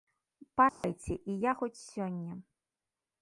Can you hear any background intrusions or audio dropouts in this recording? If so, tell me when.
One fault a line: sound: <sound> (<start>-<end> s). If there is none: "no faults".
sound: dropout (0.7-0.8 s)